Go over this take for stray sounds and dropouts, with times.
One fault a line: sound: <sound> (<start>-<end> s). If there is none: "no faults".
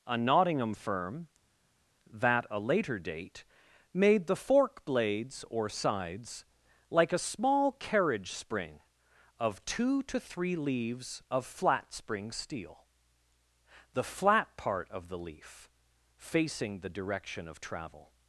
no faults